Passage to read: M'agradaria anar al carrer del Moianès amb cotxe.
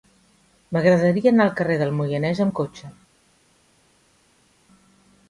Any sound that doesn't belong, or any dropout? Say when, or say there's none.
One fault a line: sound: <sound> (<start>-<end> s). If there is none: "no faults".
no faults